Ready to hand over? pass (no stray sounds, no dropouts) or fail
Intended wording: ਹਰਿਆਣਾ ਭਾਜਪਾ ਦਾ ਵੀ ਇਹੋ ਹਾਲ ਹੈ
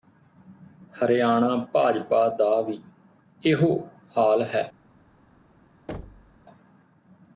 fail